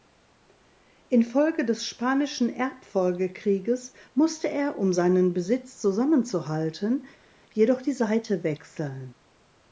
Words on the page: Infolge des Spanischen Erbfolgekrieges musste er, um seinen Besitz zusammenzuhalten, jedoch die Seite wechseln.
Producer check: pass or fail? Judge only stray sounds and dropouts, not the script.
pass